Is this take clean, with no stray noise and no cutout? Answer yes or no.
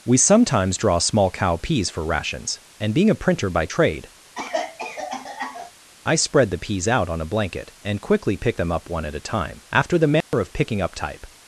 no